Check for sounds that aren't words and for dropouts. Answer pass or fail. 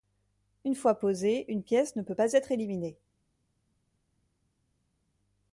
pass